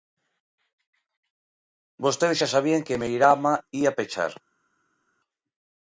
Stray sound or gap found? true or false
false